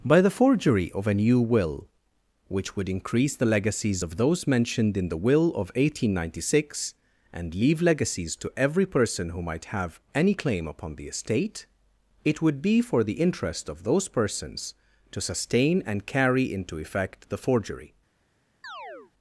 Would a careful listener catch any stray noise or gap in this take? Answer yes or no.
yes